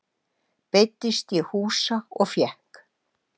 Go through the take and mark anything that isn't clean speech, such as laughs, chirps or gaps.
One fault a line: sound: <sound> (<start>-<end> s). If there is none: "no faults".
no faults